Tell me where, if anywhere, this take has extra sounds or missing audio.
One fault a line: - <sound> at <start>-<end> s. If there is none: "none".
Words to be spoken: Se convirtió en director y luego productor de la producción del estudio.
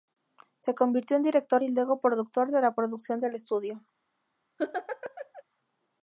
- laugh at 4.6-5.4 s